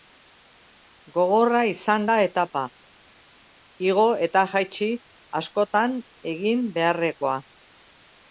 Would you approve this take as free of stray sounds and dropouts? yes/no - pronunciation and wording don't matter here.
yes